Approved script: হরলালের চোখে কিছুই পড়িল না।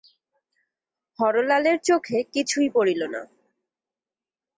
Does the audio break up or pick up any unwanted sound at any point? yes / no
no